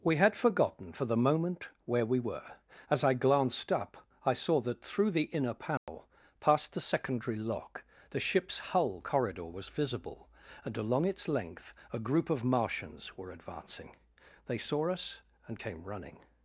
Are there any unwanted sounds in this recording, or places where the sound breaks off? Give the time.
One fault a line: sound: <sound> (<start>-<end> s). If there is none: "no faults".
sound: dropout (5.8-5.9 s)